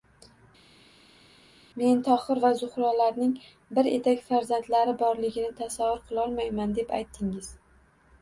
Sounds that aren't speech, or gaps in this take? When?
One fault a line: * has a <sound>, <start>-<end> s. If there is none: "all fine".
all fine